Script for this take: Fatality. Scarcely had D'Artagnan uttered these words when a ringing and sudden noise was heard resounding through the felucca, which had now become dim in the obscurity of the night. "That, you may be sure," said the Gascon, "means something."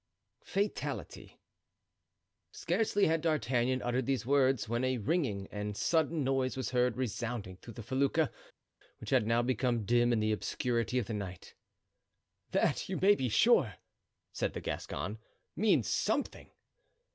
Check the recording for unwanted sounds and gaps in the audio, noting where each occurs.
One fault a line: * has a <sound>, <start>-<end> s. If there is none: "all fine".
all fine